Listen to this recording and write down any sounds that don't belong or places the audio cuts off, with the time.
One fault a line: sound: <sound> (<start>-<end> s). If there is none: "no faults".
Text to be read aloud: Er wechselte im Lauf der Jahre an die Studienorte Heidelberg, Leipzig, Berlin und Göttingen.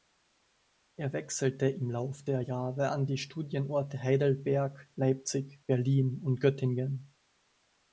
no faults